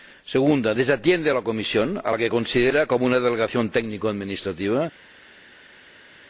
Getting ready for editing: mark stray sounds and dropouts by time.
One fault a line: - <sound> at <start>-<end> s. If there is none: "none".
none